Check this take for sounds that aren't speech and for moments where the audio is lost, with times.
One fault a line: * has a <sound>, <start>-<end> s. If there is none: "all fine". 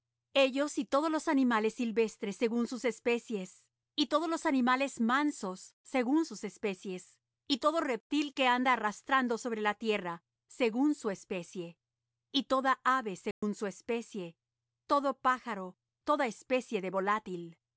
* has a dropout, 13.3-13.4 s